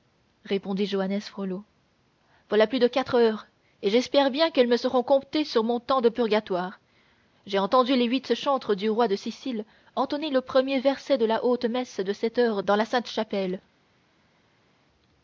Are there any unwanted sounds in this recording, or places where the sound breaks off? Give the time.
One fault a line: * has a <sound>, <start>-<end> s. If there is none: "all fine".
all fine